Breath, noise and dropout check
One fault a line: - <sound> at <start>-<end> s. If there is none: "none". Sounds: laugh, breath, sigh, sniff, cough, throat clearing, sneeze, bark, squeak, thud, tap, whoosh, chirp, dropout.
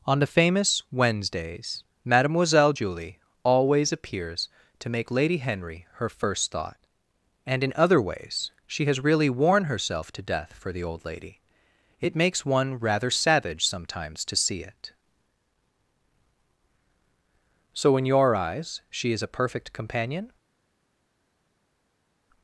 none